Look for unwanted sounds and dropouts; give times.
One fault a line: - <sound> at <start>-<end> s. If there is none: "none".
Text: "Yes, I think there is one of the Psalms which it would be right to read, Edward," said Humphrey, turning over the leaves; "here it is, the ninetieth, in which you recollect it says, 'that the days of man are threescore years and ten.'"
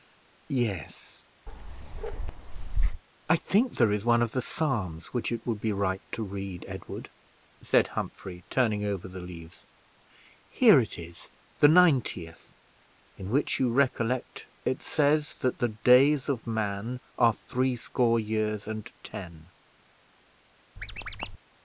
- bark at 1.5-3.0 s
- squeak at 20.8-21.4 s